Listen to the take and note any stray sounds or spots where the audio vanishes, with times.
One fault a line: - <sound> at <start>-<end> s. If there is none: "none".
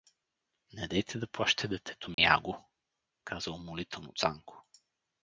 - dropout at 2.1-2.2 s